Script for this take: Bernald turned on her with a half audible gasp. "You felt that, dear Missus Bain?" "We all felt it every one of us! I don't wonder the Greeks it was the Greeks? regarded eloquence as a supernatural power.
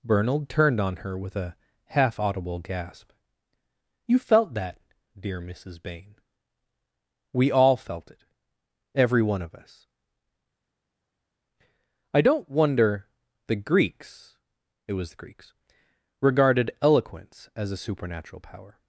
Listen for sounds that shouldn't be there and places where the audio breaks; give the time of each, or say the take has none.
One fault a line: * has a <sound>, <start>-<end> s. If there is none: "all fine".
all fine